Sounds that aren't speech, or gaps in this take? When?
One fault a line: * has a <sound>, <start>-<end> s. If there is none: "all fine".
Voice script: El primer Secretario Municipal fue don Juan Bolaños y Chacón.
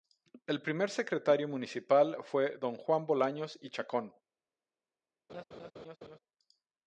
* has a laugh, 5.3-6.2 s